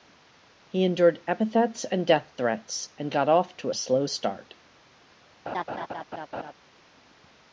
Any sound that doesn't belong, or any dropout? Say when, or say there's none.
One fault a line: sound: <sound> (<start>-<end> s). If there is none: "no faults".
sound: laugh (5.5-6.5 s)